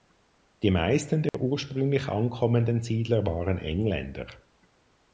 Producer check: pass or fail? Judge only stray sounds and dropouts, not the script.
fail